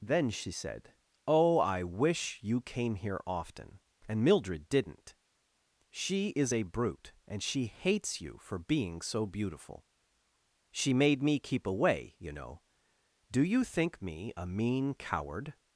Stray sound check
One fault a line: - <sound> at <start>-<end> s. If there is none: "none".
none